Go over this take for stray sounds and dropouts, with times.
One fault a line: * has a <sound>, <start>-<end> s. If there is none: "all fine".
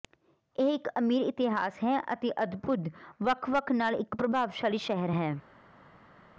all fine